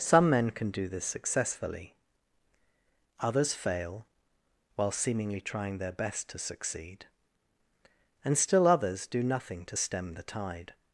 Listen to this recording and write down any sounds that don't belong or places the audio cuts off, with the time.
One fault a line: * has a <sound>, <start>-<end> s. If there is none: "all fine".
all fine